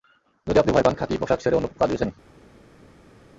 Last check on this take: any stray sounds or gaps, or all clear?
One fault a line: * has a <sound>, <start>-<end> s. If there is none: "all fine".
all fine